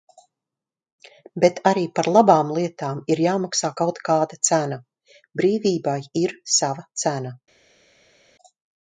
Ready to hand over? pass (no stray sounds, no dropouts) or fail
pass